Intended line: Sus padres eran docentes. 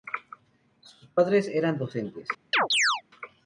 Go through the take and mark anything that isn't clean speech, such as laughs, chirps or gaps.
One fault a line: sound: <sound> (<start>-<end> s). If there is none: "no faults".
sound: chirp (2.5-3.0 s)